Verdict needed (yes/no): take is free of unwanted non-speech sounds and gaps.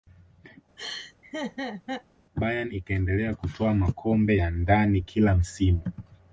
no